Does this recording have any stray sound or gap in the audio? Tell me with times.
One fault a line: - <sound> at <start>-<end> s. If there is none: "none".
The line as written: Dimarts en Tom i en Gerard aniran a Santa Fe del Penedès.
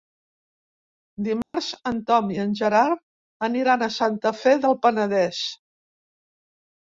- dropout at 1.4-1.5 s